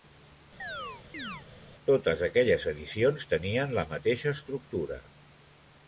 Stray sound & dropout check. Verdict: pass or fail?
fail